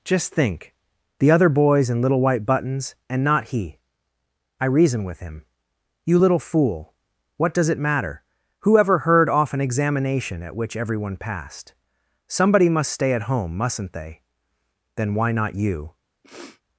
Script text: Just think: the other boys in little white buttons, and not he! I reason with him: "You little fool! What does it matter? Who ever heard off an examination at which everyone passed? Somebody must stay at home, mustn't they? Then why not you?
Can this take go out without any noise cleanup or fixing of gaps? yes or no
no